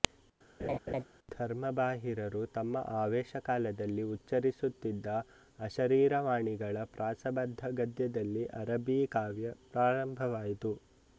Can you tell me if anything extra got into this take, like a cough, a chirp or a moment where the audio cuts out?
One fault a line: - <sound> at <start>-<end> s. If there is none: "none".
- laugh at 0.6-1.0 s